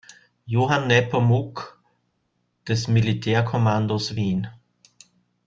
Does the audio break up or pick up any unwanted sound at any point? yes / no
no